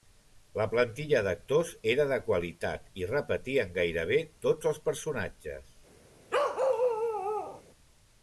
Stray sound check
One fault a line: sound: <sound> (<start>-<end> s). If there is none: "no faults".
sound: bark (6.3-7.6 s)